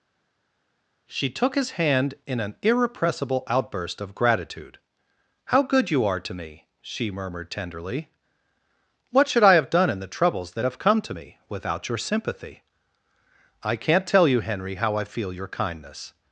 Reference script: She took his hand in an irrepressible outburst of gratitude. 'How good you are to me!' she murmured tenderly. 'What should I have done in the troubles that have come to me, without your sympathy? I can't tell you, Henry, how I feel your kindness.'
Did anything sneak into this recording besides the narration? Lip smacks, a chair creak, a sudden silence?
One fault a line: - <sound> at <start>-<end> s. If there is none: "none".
none